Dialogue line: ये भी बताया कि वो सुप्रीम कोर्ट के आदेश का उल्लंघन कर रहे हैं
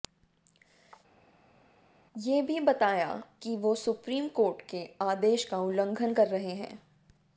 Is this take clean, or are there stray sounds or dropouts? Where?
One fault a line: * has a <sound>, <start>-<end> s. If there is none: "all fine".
all fine